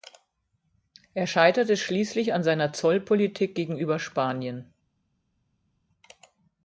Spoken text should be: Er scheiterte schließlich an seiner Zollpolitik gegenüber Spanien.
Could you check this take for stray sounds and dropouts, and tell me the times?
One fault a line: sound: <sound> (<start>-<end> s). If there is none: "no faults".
no faults